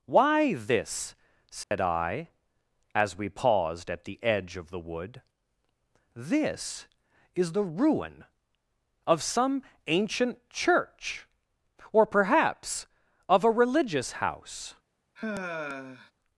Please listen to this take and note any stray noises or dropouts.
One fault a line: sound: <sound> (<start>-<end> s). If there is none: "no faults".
sound: dropout (1.6-1.7 s)
sound: sigh (15.2-16.1 s)